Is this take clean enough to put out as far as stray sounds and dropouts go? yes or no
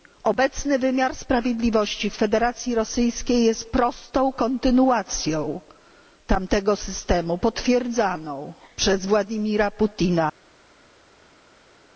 yes